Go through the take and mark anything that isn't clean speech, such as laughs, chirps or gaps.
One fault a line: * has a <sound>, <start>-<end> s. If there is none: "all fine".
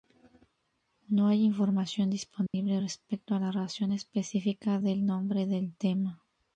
* has a dropout, 2.5-2.5 s